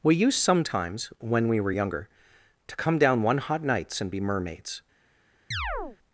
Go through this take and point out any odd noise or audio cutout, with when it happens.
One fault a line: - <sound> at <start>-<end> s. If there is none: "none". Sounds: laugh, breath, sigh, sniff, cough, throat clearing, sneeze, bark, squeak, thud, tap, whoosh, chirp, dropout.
- chirp at 5.5-6.0 s